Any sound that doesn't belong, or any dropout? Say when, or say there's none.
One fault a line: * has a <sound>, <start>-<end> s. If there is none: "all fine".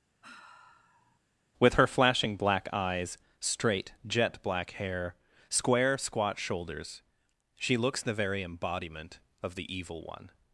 * has a sigh, 0.2-1.2 s